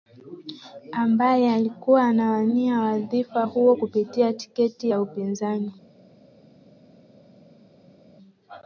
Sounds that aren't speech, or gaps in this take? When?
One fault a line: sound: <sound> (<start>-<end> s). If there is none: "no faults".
no faults